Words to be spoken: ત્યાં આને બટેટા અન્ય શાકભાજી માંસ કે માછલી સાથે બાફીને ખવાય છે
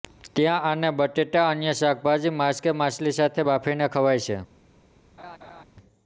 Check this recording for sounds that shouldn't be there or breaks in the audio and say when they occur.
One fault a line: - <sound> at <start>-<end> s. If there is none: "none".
- laugh at 5.2-5.6 s